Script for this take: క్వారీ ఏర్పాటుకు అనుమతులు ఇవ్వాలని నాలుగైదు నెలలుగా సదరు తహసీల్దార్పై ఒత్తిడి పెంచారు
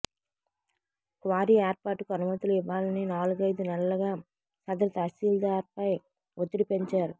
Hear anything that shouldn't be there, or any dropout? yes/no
no